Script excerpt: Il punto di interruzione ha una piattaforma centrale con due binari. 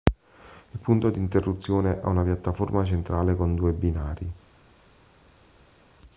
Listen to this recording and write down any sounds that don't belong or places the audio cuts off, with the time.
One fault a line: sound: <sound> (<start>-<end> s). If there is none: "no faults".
no faults